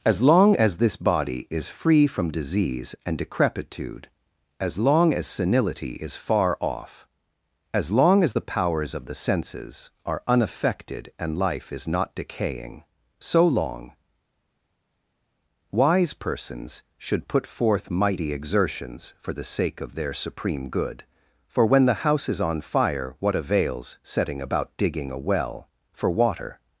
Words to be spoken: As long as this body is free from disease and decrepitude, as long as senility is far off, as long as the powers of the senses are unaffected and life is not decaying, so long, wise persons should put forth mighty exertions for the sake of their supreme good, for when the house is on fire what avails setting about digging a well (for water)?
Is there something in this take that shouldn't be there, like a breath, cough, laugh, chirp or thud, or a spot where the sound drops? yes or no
no